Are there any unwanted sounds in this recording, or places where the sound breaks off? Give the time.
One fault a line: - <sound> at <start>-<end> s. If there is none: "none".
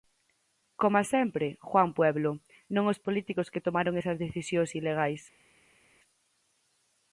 none